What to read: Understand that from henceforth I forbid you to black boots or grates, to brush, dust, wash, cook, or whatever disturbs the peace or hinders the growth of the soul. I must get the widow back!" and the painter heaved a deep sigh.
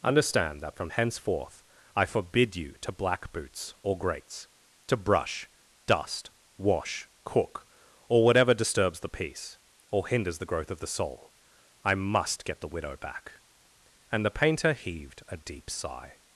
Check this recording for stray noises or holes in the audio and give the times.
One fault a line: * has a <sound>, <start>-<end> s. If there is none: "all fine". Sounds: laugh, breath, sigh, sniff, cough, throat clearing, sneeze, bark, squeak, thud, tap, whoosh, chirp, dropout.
all fine